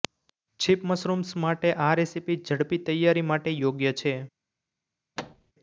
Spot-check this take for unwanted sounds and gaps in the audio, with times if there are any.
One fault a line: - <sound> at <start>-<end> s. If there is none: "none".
- thud at 5.2-5.5 s